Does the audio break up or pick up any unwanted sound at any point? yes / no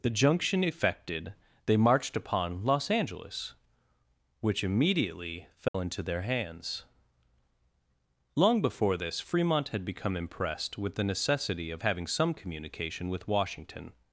yes